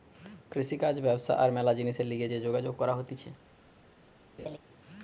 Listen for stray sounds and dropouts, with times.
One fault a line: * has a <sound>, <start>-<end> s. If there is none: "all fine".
* has a laugh, 4.4-4.6 s